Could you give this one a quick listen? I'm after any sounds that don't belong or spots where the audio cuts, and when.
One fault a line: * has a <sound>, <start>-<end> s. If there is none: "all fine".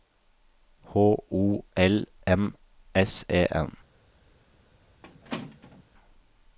* has a squeak, 5.0-5.8 s